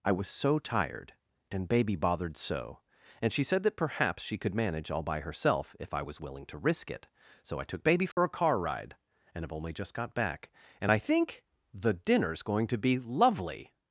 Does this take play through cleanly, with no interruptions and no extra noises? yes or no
no